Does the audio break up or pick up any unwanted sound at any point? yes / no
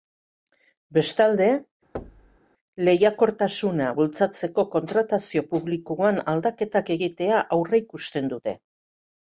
yes